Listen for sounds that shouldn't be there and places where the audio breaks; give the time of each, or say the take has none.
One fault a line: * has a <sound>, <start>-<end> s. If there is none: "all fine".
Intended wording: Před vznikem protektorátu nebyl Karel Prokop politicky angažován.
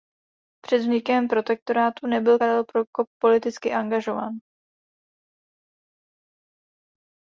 all fine